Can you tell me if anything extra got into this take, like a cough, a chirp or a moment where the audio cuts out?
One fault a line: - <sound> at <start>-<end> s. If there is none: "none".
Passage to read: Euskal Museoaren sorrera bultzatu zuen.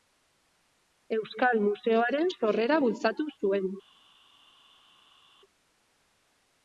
none